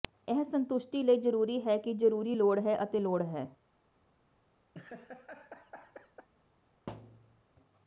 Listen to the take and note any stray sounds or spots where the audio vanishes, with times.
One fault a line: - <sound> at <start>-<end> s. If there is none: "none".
- laugh at 4.7-6.3 s
- thud at 6.9-7.4 s